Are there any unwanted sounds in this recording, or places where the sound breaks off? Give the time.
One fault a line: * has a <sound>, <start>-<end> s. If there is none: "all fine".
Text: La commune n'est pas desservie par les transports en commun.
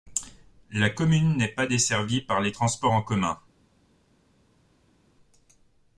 all fine